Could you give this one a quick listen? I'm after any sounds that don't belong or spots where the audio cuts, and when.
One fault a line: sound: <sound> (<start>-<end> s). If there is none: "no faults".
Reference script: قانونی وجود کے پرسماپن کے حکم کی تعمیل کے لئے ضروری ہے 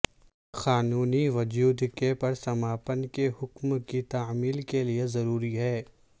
no faults